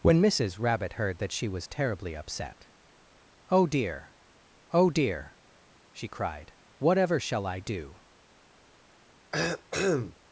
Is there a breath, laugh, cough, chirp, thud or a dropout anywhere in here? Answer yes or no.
yes